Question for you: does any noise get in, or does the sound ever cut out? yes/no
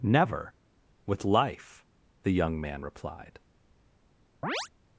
yes